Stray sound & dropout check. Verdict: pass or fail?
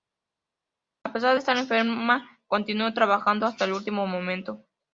pass